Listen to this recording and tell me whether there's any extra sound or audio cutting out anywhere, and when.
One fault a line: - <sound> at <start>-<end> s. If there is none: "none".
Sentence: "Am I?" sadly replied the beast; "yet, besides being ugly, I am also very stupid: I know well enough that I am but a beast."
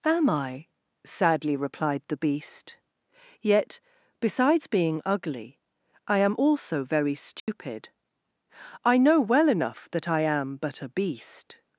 - dropout at 7.4-7.5 s